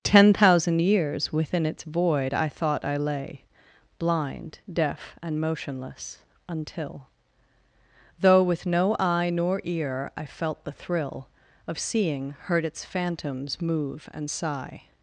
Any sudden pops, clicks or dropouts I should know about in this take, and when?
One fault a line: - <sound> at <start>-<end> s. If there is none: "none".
none